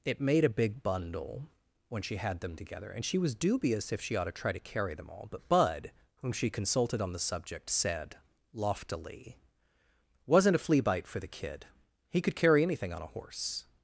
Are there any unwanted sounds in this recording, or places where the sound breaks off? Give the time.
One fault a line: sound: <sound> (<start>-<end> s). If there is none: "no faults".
no faults